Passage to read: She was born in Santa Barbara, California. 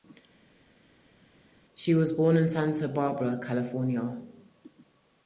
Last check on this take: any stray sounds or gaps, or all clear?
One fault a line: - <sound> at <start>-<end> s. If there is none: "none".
none